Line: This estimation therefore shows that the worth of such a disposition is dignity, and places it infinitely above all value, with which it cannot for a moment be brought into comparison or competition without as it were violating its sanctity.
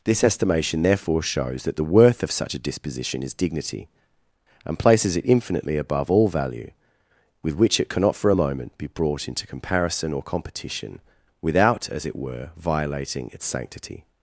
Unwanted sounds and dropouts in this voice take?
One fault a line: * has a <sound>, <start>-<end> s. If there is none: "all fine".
all fine